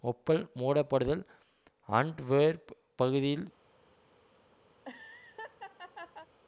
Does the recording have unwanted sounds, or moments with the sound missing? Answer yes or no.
yes